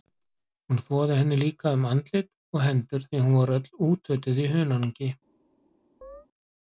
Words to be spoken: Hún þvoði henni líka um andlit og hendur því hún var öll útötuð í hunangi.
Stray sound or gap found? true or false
true